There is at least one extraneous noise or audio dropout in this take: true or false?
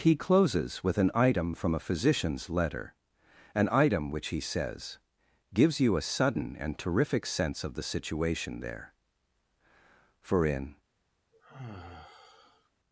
true